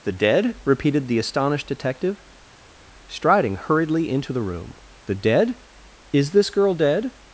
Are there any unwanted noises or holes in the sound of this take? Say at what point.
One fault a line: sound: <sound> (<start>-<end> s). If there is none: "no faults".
no faults